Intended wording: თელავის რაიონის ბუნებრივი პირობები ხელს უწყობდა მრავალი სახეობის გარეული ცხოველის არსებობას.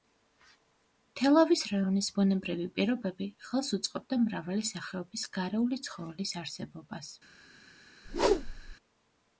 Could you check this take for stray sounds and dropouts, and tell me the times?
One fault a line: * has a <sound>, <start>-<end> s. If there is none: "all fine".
* has a whoosh, 8.0-8.8 s